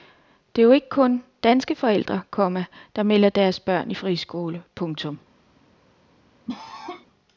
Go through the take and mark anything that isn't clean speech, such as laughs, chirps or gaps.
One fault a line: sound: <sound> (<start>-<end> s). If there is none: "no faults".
sound: cough (6.5-7.1 s)